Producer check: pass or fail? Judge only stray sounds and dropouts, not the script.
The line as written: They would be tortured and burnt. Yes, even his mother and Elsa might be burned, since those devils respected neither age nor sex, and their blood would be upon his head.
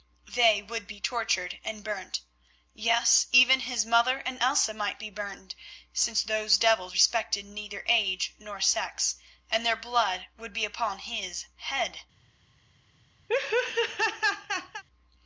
fail